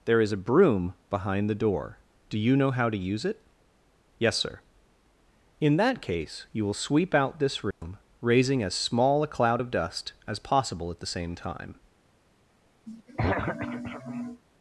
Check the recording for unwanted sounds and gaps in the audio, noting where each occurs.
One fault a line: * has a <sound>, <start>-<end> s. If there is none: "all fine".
* has a dropout, 7.7-7.8 s
* has a throat clearing, 12.9-14.4 s